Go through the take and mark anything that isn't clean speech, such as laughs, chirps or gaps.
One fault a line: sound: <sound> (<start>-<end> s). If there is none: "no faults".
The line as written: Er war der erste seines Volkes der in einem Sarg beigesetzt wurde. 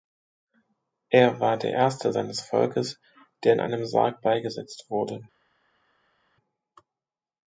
no faults